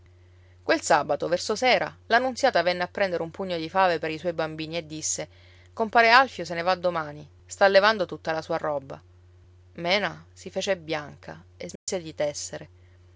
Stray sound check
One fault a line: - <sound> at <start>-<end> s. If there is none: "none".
- dropout at 11.8-11.9 s